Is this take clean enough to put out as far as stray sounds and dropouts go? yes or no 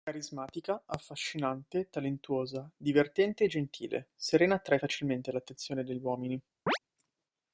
no